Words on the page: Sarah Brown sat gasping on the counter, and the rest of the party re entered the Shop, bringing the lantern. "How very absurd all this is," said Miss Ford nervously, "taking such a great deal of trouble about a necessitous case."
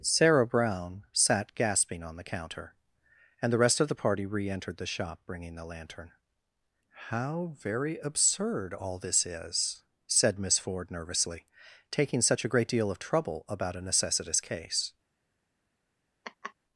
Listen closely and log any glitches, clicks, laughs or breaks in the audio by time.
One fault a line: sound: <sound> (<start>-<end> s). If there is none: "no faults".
sound: laugh (16.2-16.5 s)